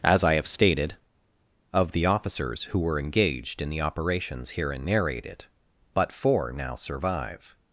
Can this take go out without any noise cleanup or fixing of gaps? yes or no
yes